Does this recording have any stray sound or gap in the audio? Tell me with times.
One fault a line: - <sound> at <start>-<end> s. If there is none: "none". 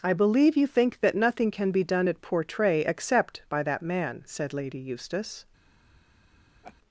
- laugh at 6.6-6.8 s